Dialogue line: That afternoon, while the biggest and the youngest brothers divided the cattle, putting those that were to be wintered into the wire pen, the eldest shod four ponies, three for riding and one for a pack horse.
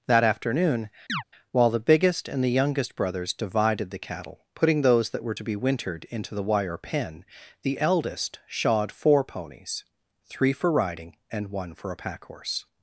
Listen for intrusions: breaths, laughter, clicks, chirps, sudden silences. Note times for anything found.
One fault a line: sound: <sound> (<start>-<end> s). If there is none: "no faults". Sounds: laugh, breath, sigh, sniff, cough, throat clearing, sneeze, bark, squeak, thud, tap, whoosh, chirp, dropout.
sound: chirp (1.1-1.2 s)